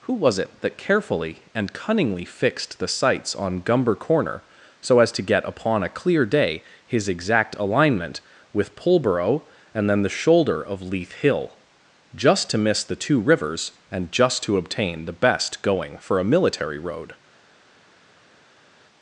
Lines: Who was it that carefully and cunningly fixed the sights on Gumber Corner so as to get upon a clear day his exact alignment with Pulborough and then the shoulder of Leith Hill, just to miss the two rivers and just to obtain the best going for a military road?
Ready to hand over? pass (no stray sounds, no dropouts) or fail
pass